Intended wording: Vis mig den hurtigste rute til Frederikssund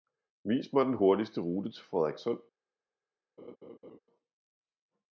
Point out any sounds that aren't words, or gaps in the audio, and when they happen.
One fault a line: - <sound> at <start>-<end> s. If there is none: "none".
- laugh at 3.4-4.0 s